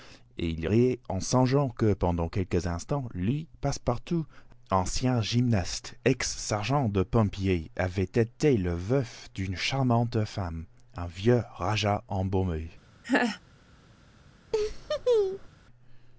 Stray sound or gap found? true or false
true